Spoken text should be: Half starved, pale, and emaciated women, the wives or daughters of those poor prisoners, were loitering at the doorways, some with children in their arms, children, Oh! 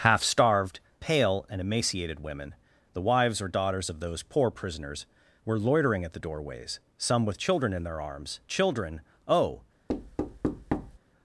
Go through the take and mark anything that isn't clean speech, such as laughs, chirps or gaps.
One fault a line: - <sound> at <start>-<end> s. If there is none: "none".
- thud at 9.9-11.0 s